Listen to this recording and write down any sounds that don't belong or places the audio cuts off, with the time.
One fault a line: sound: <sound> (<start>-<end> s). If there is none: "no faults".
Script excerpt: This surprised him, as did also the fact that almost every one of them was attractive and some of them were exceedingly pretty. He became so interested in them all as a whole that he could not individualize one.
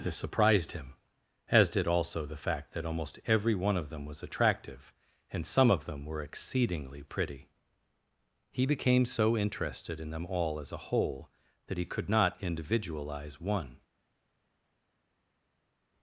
no faults